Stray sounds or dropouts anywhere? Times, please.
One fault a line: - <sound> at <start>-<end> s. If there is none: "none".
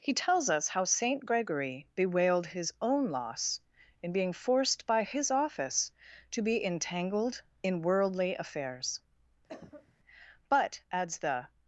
- cough at 9.5-10.0 s